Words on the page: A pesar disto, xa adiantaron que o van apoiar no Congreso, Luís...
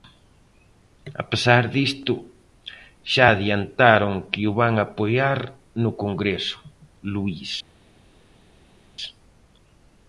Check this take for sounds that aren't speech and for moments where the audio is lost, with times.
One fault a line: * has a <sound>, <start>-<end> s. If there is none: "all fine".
all fine